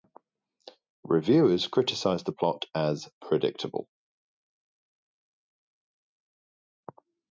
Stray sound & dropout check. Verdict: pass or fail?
pass